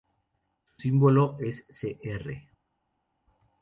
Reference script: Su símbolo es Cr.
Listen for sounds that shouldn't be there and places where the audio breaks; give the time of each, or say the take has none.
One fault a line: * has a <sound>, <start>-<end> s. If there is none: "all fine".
all fine